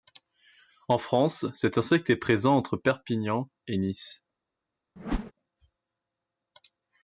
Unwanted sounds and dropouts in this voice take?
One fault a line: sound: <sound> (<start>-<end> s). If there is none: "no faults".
sound: whoosh (5.0-5.3 s)